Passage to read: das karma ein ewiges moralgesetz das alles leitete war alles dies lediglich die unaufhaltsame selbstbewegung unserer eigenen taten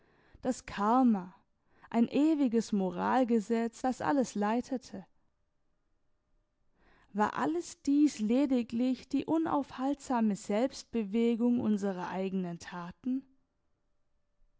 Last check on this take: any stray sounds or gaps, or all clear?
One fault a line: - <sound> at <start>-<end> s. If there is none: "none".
none